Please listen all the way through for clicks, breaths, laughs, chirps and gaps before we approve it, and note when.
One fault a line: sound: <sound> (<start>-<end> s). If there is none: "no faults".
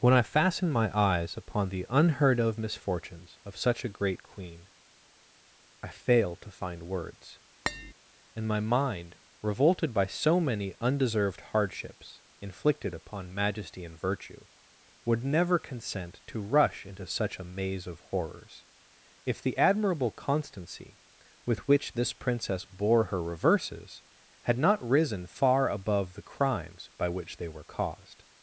sound: tap (7.7-7.9 s)